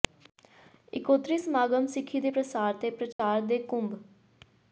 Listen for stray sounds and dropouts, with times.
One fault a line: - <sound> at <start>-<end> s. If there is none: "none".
- dropout at 3.1-3.2 s